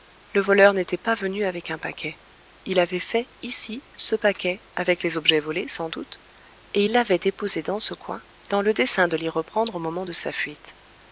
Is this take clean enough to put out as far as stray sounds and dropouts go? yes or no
yes